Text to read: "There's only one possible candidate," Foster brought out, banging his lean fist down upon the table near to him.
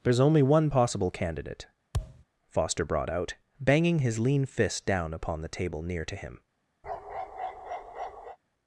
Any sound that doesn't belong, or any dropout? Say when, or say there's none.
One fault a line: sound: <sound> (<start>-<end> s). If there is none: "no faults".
sound: thud (1.9-2.2 s)
sound: bark (6.8-8.4 s)